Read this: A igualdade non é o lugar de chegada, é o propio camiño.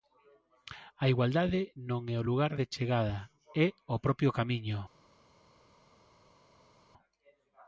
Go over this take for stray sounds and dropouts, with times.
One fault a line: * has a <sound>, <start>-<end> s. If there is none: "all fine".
all fine